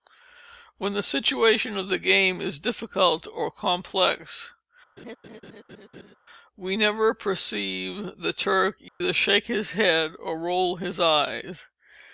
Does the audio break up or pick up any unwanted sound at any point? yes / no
yes